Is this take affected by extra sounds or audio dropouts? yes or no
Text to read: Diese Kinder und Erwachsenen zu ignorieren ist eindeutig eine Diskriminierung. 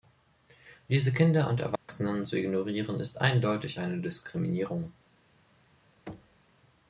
yes